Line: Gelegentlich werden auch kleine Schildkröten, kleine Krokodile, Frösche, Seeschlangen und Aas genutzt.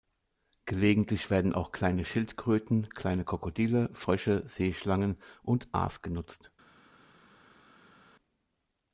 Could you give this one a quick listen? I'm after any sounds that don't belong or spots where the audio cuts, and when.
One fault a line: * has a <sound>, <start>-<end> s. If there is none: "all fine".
all fine